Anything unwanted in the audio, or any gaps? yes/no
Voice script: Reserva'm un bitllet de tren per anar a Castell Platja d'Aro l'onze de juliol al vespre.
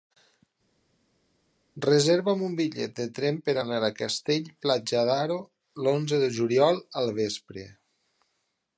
no